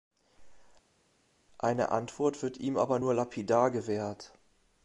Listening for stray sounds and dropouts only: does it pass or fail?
pass